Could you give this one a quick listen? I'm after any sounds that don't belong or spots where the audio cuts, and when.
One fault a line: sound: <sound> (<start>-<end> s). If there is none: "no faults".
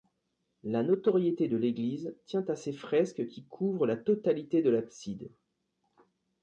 no faults